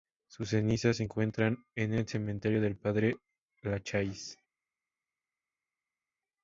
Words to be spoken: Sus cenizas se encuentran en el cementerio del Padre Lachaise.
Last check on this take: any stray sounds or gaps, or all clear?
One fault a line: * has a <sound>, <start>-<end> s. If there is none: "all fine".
all fine